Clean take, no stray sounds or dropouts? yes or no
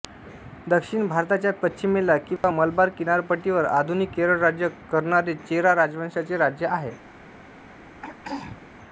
no